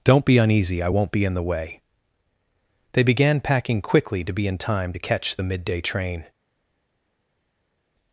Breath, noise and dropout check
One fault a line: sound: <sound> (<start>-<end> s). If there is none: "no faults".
no faults